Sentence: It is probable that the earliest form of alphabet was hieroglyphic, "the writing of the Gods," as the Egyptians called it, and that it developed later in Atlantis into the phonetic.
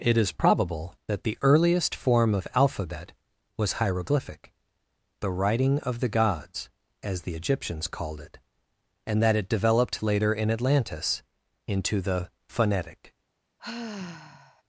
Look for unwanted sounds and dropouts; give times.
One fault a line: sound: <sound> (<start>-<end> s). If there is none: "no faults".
sound: sigh (13.6-14.6 s)